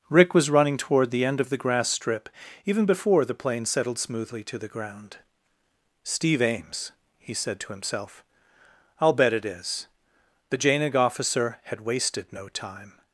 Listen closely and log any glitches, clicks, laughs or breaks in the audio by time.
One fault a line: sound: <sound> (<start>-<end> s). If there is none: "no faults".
no faults